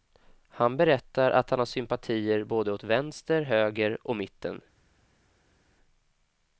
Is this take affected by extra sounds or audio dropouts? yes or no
no